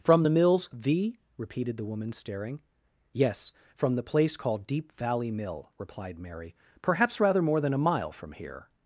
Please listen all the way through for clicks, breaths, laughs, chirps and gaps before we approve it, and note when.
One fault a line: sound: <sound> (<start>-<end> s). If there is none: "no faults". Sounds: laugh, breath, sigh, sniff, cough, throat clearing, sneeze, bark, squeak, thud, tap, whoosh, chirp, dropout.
no faults